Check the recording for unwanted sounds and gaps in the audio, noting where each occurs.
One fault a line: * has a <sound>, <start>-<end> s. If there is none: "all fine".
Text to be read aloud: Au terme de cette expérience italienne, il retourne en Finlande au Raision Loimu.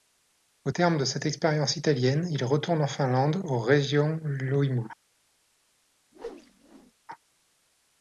* has a whoosh, 6.1-6.9 s